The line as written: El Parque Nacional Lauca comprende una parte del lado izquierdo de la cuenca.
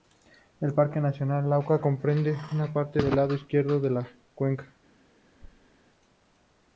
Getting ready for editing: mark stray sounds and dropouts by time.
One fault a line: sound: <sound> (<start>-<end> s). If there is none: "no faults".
sound: thud (5.4-5.7 s)